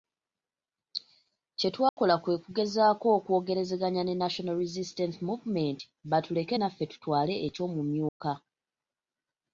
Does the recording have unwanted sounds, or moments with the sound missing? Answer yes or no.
yes